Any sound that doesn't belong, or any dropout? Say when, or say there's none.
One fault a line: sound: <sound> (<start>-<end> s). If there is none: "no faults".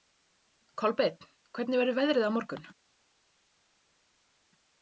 no faults